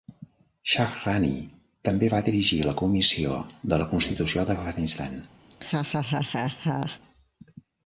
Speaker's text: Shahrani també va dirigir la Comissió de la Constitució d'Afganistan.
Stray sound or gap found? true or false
true